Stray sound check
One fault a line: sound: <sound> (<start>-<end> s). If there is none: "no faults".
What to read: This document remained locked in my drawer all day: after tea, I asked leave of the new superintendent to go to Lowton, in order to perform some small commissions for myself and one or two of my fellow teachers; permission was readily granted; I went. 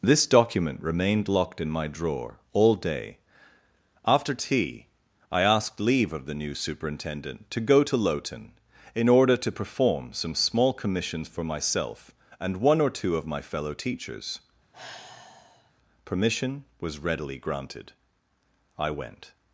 sound: sigh (14.7-15.7 s)